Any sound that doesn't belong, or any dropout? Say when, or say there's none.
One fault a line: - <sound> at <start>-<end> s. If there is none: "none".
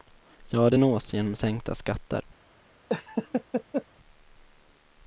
- laugh at 2.9-3.8 s